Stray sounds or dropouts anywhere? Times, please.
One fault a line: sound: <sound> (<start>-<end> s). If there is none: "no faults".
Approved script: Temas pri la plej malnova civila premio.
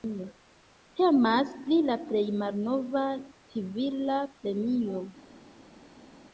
no faults